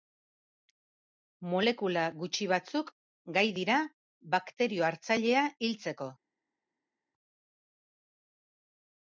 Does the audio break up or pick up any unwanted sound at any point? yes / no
no